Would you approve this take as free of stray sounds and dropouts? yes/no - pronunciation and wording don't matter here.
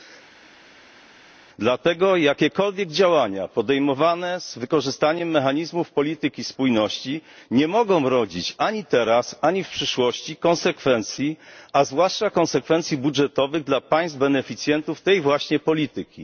yes